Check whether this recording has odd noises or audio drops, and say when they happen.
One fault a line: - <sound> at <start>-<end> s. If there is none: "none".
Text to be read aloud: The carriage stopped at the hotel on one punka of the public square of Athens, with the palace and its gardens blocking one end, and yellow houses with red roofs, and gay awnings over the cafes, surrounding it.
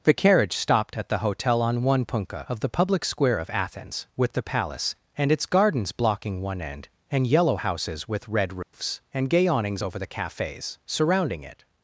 - dropout at 8.6-8.7 s